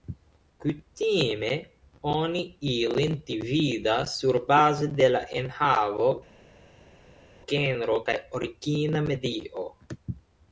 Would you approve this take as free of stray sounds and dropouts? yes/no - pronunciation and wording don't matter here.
yes